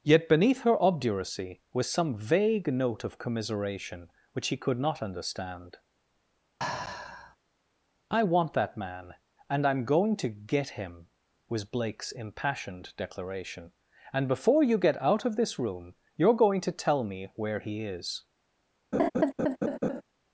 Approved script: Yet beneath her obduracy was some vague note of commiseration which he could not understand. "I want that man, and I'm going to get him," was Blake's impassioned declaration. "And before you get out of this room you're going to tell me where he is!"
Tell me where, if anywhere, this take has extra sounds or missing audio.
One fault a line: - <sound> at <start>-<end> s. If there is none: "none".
- sigh at 6.6-7.4 s
- laugh at 18.9-20.0 s